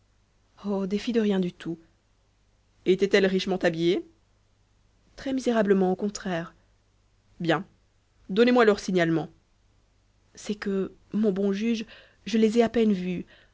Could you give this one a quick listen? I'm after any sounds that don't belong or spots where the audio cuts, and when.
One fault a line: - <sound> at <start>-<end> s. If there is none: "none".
none